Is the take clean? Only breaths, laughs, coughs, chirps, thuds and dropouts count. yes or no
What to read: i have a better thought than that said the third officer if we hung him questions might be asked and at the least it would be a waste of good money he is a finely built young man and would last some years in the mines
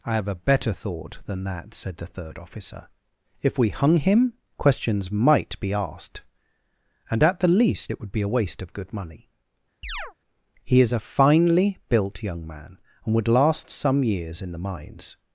no